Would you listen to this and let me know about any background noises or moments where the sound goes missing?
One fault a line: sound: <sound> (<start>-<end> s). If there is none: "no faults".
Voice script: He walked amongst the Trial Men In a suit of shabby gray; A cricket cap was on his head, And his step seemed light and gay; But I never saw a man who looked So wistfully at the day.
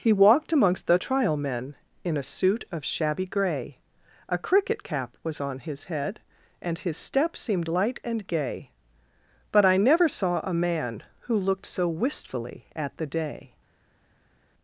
no faults